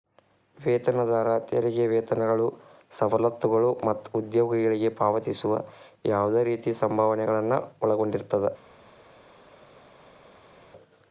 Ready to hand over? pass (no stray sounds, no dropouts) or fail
pass